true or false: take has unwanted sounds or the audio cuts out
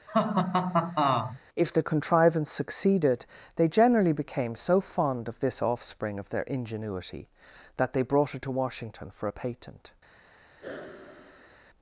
true